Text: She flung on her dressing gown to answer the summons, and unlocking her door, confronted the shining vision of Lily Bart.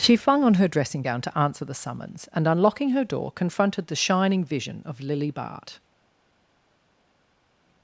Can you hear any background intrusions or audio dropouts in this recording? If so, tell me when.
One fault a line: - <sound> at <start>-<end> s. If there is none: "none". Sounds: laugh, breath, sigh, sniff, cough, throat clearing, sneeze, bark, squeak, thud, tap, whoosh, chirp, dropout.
none